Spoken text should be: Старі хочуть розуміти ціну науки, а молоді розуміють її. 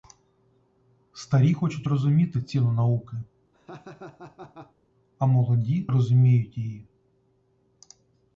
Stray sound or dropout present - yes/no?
yes